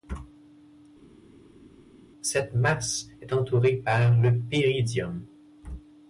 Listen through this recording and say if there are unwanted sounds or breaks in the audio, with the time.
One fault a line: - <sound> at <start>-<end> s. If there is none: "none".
none